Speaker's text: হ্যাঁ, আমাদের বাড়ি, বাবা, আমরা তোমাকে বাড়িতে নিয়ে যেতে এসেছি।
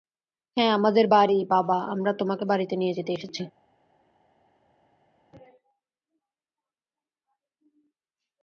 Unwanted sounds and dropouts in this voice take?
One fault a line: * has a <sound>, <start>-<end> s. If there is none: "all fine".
all fine